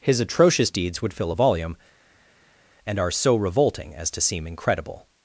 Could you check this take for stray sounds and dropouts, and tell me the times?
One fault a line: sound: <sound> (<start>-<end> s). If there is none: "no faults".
no faults